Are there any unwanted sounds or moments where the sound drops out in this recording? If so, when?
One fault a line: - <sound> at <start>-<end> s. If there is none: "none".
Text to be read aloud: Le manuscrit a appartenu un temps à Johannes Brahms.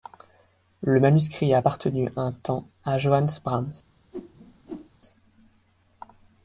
- whoosh at 4.1-4.9 s